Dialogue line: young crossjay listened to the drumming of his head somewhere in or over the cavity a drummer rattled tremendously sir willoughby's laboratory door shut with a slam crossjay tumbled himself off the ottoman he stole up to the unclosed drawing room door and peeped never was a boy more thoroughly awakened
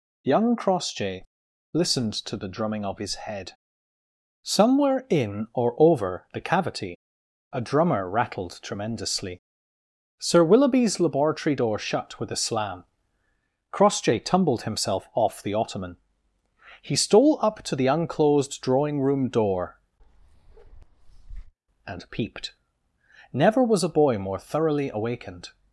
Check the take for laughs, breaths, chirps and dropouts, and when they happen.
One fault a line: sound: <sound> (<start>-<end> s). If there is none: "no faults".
sound: bark (20.0-21.5 s)